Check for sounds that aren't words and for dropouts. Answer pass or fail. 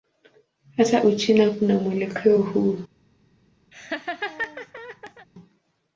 fail